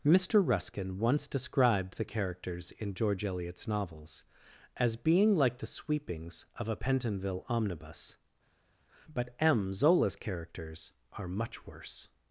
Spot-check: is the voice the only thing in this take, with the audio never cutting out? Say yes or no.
yes